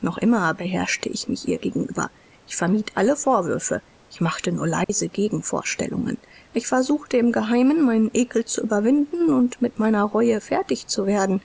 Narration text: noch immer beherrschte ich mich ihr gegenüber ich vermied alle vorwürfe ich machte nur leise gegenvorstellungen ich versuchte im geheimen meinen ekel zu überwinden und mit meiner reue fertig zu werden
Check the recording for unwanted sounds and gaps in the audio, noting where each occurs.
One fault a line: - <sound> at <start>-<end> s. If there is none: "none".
- dropout at 4.8-4.9 s